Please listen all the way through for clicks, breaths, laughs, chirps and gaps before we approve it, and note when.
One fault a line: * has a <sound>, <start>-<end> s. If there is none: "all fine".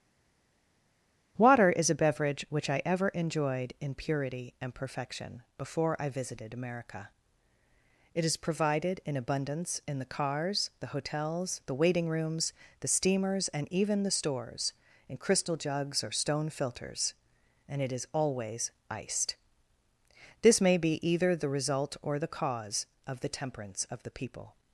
all fine